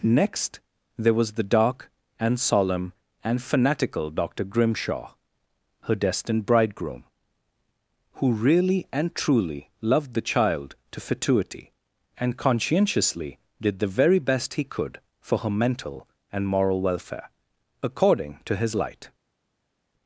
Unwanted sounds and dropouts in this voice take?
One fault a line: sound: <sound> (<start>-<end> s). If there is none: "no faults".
no faults